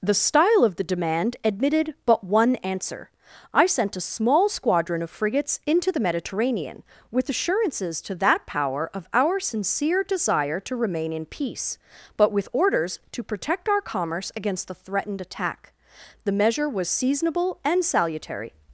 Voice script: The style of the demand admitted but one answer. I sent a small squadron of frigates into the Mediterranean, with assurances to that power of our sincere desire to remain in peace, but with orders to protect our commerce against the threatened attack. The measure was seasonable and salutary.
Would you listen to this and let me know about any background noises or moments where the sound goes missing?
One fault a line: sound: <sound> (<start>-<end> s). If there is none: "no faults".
no faults